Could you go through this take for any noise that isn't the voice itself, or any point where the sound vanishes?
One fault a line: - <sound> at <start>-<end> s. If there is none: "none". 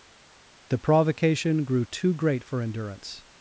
none